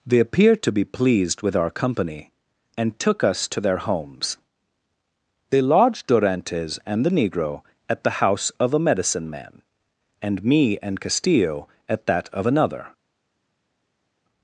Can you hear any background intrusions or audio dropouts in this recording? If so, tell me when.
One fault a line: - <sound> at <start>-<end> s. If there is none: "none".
none